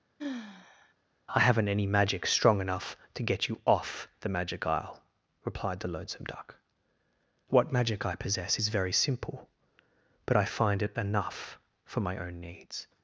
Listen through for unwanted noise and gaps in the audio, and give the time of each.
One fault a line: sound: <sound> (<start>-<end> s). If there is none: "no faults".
sound: sigh (0.2-0.9 s)